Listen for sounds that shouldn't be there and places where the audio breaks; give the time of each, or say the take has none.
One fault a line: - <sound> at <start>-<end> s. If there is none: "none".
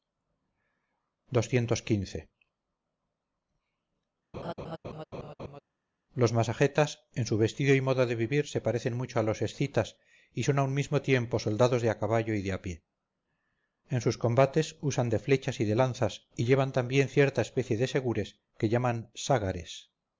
- laugh at 4.3-5.6 s